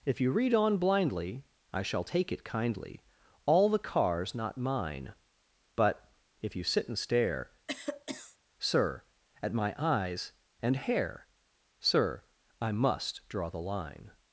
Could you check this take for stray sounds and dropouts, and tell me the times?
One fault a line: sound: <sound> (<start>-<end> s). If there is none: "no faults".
sound: cough (7.7-8.4 s)